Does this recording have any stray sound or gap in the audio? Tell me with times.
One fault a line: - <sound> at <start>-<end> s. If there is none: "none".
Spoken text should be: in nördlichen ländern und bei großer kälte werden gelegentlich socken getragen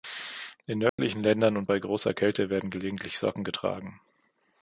- dropout at 0.9-1.0 s